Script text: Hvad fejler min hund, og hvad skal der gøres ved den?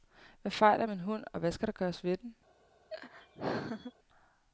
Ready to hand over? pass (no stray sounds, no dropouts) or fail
fail